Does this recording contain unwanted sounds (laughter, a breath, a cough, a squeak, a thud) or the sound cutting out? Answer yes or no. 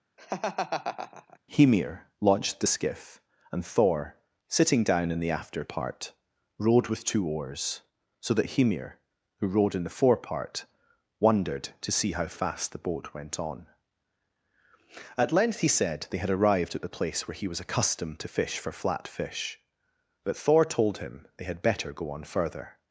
yes